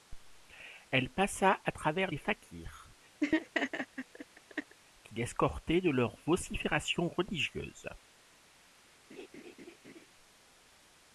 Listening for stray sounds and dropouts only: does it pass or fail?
fail